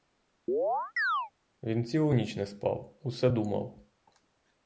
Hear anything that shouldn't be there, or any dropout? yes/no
yes